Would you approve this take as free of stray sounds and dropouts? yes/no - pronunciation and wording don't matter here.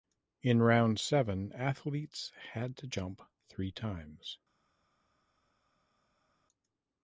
yes